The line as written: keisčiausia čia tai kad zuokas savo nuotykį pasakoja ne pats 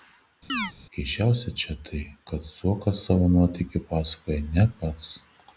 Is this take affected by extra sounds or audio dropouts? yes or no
yes